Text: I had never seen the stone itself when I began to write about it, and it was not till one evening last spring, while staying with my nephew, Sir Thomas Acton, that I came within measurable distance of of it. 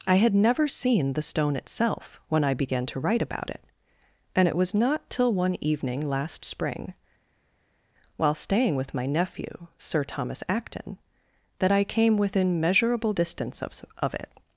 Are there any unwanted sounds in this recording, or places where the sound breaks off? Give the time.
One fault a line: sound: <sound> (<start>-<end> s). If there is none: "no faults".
no faults